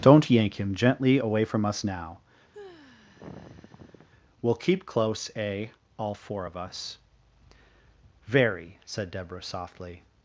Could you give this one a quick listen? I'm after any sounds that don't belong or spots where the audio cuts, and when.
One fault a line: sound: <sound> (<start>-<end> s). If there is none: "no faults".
sound: sigh (2.5-4.1 s)